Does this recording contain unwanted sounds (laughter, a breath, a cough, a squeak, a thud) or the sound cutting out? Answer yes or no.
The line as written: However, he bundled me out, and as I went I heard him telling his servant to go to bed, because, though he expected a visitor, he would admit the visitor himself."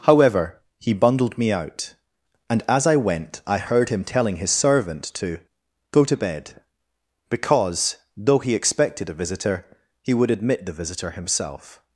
no